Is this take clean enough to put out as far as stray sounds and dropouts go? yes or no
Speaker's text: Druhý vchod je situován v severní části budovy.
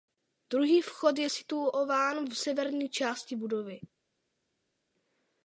yes